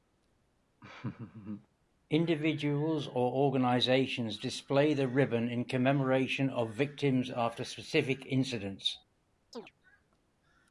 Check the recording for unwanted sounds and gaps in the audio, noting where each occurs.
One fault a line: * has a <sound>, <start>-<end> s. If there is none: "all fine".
* has a laugh, 0.8-1.7 s
* has a chirp, 9.5-9.7 s